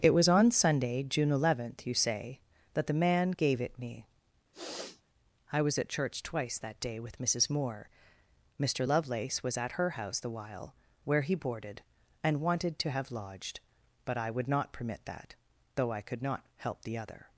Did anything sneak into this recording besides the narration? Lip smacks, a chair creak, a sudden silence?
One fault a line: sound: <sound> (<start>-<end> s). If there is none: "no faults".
sound: sniff (4.5-5.0 s)